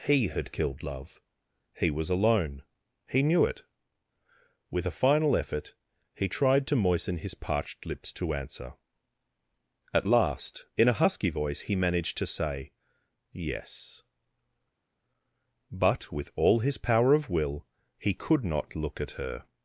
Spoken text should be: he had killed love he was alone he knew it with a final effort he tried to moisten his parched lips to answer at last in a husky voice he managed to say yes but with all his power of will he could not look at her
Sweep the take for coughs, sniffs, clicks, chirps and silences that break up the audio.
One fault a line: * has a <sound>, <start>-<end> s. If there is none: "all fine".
all fine